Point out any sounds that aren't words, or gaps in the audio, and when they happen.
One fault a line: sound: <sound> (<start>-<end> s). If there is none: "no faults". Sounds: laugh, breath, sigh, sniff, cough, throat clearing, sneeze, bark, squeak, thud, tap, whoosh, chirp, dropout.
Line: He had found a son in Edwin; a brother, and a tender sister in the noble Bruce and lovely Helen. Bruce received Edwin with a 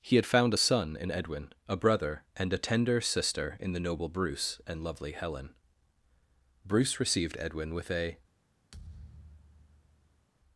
sound: thud (8.7-10.3 s)